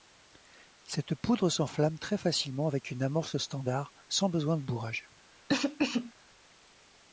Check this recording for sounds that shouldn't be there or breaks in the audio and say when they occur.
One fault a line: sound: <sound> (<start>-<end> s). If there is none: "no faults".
sound: cough (5.5-6.1 s)